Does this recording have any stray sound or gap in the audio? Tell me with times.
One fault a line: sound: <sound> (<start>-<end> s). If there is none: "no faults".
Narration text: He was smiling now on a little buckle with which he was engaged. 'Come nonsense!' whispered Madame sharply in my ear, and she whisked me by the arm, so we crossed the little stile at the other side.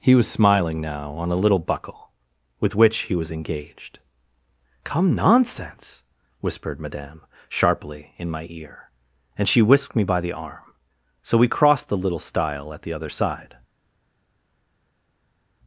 no faults